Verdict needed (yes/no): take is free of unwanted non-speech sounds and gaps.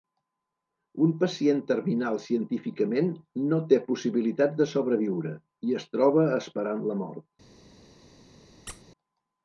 no